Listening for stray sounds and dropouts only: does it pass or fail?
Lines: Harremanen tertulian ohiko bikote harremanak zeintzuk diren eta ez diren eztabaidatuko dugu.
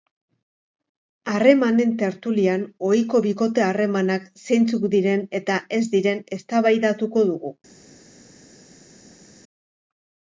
pass